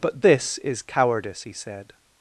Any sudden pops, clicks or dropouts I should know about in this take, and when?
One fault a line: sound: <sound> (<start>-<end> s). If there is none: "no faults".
no faults